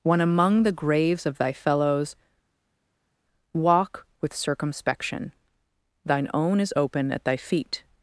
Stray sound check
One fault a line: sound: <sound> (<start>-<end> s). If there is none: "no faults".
no faults